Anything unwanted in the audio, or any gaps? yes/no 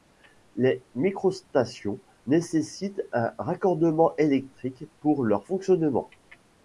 no